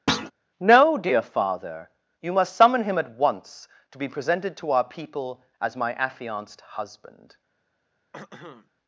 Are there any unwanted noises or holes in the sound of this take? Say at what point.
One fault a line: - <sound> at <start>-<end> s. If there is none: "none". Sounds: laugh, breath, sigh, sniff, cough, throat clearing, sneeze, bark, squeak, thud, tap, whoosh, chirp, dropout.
- thud at 0.1-0.3 s
- throat clearing at 8.1-8.7 s